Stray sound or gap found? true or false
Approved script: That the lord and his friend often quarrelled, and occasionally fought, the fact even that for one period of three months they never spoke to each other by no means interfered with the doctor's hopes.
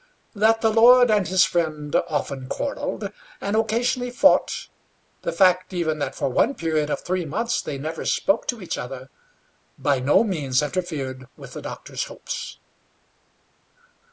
false